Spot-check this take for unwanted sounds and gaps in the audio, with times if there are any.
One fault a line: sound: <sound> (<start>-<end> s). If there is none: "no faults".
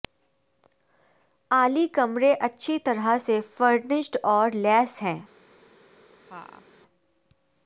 sound: laugh (6.3-6.7 s)